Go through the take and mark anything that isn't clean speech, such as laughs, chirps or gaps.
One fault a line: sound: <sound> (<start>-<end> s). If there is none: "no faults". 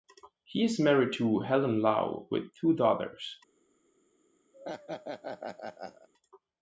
sound: laugh (4.5-6.1 s)